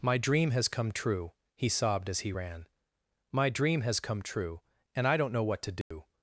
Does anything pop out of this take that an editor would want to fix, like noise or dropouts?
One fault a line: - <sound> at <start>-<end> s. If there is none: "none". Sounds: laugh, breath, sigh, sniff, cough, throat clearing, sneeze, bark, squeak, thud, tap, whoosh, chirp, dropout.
- dropout at 5.8-5.9 s